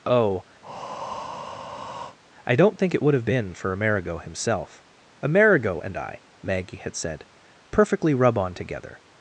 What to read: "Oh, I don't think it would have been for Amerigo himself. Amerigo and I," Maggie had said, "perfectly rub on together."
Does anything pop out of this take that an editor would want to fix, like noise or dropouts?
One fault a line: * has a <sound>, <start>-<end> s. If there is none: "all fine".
* has a breath, 0.6-2.2 s